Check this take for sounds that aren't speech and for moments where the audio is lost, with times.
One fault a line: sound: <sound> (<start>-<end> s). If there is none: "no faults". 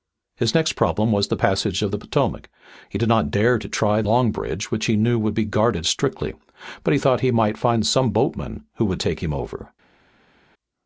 no faults